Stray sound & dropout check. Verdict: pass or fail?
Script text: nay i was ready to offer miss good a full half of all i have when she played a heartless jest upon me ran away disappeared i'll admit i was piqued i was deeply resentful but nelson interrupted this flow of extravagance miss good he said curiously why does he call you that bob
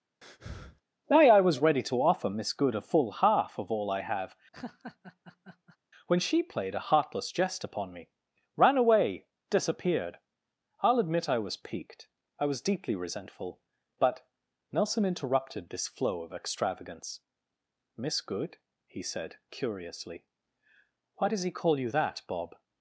fail